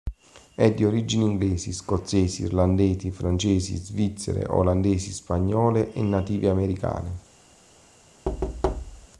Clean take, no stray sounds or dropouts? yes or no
no